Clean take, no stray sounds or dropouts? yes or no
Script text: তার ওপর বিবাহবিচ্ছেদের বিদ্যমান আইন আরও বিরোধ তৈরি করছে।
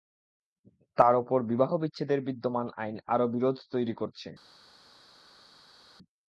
yes